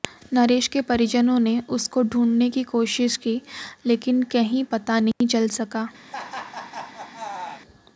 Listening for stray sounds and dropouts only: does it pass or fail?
fail